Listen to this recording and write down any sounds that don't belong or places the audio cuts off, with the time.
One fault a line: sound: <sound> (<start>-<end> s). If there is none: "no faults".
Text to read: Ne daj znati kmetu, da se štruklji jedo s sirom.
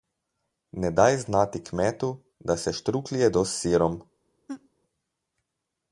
sound: laugh (4.5-4.7 s)